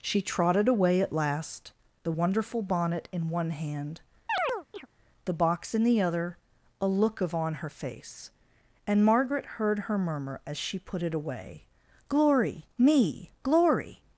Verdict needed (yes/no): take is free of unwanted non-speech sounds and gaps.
no